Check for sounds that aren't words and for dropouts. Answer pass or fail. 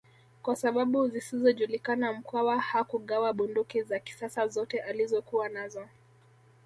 pass